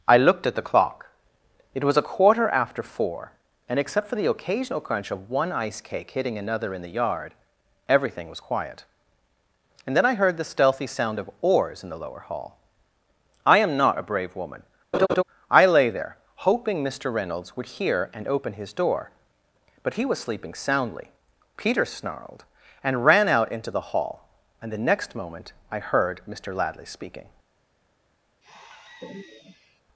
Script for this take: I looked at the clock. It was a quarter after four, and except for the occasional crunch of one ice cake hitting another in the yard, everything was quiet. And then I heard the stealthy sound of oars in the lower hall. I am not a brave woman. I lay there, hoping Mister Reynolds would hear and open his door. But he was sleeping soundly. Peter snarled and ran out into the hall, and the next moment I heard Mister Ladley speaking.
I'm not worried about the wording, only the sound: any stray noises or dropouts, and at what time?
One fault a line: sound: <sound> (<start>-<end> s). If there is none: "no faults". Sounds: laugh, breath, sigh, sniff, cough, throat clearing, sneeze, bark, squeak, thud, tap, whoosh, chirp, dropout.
sound: laugh (14.9-15.2 s)
sound: sigh (28.4-29.8 s)